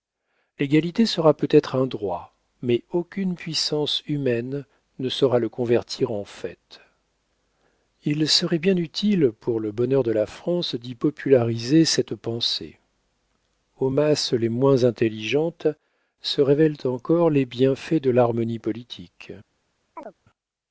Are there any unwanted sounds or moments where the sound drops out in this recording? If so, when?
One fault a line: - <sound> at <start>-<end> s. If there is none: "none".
- chirp at 20.0-20.1 s